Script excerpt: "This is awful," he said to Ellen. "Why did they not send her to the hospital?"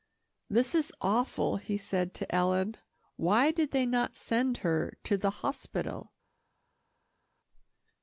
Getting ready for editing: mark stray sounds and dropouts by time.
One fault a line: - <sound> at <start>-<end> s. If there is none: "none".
none